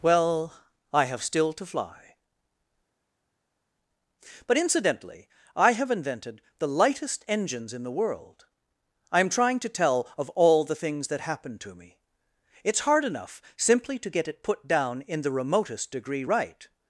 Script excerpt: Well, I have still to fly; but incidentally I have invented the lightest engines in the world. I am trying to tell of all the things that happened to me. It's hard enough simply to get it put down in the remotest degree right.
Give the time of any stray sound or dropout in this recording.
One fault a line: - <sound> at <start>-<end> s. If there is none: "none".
none